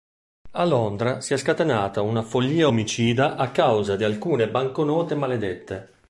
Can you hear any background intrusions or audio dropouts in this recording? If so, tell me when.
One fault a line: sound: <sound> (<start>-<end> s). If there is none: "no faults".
no faults